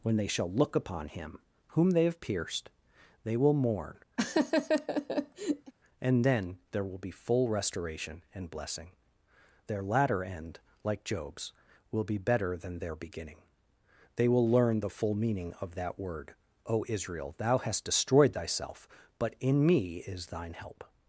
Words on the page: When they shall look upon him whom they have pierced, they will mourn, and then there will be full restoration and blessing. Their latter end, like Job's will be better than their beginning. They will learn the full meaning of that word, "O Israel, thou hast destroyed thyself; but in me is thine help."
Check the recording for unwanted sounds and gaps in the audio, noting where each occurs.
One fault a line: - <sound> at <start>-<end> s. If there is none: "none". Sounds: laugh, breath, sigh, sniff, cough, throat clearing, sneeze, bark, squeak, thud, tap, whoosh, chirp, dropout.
- laugh at 4.2-5.7 s